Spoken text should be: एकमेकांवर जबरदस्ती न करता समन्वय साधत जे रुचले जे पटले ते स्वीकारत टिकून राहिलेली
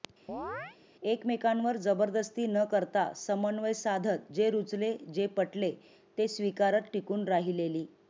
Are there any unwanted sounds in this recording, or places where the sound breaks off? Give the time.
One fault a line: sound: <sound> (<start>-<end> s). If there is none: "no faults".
sound: chirp (0.3-0.8 s)